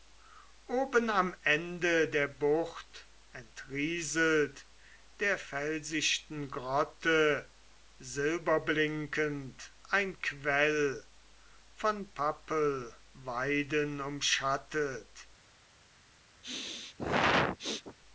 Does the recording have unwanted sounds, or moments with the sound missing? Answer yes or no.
yes